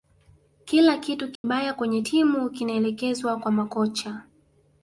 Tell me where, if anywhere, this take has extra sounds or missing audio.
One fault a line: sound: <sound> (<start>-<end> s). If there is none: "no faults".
sound: dropout (1.4-1.4 s)